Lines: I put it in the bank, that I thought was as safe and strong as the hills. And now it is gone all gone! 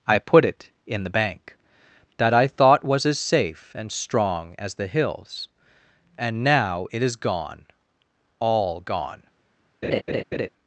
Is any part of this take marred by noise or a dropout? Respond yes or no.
yes